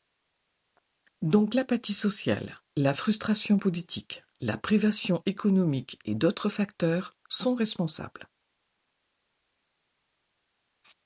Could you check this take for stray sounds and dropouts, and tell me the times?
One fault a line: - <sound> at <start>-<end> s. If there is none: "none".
none